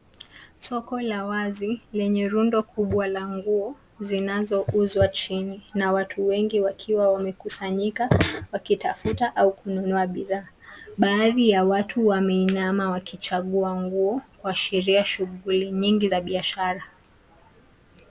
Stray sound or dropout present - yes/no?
no